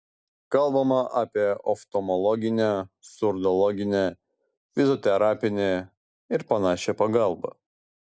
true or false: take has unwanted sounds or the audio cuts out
false